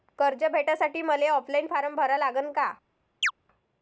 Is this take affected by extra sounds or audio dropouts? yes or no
yes